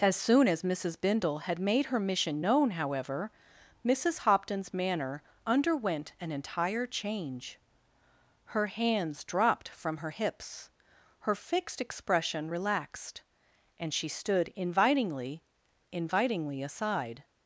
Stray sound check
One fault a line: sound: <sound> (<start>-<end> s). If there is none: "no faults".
no faults